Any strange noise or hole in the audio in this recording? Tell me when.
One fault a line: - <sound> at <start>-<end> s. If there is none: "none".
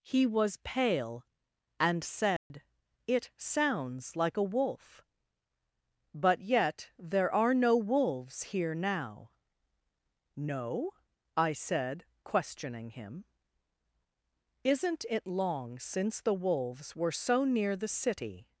- dropout at 2.4-2.5 s